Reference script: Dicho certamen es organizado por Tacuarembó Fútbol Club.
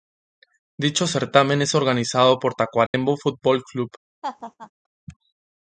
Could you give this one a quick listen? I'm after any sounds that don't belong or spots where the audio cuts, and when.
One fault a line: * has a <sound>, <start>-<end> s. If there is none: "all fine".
* has a dropout, 2.9-2.9 s
* has a laugh, 4.2-4.7 s